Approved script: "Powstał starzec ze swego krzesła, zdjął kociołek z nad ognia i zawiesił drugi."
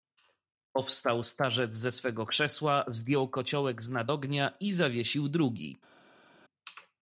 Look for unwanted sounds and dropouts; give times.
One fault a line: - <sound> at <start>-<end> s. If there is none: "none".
none